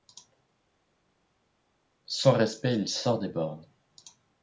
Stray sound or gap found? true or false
false